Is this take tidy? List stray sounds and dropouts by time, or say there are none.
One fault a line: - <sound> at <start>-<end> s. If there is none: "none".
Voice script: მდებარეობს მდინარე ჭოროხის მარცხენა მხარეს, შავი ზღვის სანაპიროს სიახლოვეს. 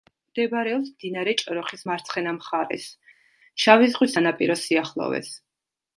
none